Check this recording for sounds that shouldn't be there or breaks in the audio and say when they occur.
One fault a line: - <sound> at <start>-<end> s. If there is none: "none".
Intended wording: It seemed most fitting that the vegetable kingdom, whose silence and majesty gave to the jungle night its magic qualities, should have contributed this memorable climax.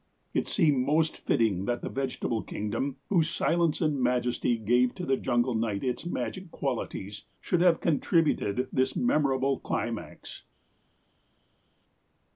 none